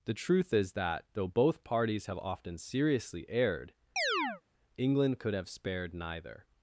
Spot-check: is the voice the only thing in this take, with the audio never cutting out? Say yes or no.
no